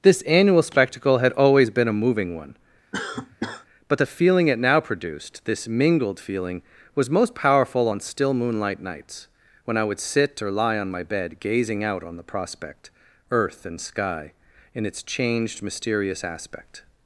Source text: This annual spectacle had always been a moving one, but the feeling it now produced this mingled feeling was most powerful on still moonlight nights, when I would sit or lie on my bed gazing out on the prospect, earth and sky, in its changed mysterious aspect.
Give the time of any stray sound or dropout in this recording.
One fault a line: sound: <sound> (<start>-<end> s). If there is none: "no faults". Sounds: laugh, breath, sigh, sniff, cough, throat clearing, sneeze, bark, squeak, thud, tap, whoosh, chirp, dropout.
sound: cough (2.9-3.7 s)